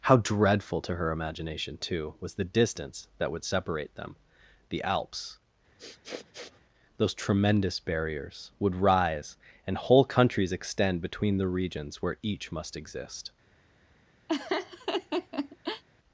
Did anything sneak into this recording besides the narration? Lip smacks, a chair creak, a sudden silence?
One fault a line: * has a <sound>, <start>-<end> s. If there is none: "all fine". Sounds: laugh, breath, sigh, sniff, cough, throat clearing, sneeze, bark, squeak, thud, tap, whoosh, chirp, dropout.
* has a sniff, 5.8-6.6 s
* has a laugh, 14.3-15.8 s